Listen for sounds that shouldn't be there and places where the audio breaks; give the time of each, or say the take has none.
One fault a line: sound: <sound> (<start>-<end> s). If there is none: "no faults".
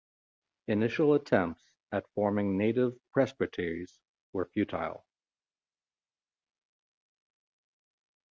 no faults